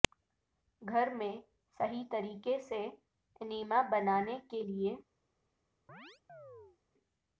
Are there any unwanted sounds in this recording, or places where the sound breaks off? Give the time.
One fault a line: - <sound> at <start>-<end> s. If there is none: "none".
- chirp at 5.9-6.8 s